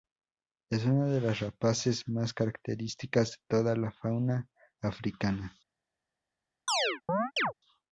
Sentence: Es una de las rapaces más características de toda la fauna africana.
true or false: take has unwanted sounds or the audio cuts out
true